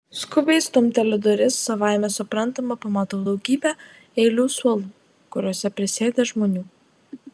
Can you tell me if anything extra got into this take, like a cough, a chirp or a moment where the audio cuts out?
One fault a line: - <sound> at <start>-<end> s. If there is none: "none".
none